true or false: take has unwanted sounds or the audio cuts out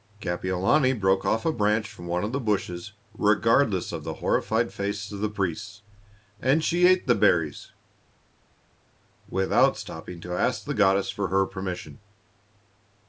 false